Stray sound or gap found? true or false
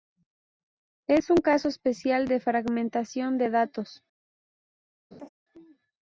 true